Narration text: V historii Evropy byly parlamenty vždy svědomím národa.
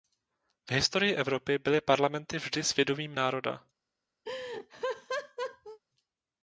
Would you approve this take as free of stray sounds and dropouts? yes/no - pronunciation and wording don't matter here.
no